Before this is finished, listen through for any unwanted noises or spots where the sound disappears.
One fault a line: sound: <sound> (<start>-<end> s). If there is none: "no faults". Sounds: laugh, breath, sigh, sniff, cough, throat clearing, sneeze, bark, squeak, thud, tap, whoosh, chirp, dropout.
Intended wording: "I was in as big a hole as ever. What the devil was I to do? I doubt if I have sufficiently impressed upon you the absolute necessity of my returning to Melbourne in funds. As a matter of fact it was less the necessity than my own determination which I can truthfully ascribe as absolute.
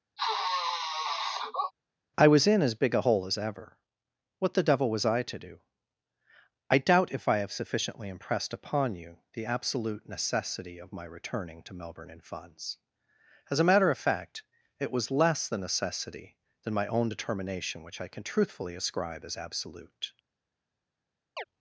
sound: sniff (0.2-1.7 s)
sound: chirp (21.4-21.4 s)